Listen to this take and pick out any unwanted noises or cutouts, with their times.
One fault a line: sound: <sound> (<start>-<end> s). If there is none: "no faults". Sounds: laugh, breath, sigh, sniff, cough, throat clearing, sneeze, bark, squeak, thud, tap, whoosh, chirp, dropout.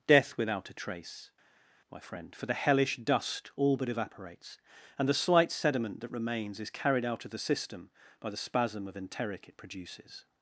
no faults